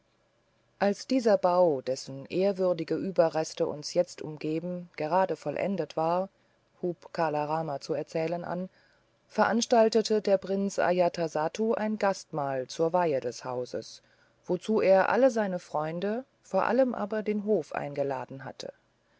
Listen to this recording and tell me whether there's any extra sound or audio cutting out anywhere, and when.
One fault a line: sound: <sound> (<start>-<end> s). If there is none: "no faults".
no faults